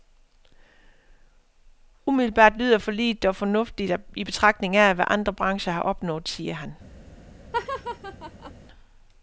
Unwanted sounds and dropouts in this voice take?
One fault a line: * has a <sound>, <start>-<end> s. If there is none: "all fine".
* has a laugh, 7.5-8.5 s